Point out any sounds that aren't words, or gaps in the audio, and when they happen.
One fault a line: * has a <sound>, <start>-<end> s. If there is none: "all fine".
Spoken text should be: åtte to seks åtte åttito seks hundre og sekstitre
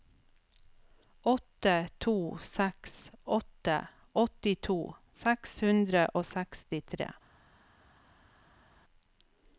all fine